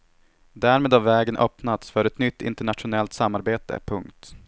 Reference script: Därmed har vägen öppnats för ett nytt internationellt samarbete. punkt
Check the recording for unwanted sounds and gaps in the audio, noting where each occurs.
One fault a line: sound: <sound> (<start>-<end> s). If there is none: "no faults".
no faults